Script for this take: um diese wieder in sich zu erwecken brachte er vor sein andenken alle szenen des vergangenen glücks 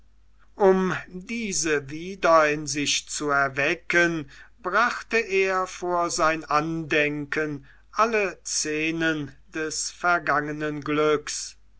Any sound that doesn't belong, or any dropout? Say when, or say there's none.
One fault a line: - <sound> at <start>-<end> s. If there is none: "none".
none